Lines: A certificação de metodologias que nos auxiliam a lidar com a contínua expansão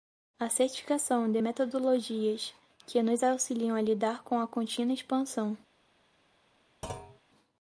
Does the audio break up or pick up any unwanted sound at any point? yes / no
yes